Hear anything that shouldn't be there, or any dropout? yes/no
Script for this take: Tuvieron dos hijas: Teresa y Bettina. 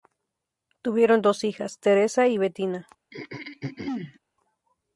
yes